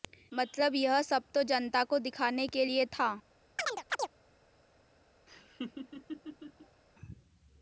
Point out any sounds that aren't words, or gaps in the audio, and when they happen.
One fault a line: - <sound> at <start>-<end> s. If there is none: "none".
- chirp at 3.6-4.1 s
- laugh at 5.3-6.8 s